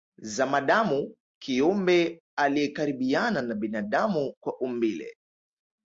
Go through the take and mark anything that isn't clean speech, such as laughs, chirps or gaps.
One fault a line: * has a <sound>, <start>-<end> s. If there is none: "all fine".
all fine